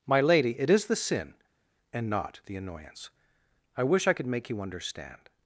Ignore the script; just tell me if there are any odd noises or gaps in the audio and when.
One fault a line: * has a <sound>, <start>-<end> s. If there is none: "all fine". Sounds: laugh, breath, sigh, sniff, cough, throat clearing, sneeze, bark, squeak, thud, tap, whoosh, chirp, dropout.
all fine